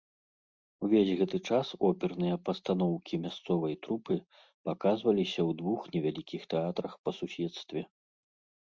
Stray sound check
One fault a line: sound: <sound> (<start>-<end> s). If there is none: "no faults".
no faults